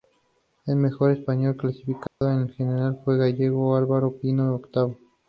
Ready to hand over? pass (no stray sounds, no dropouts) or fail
fail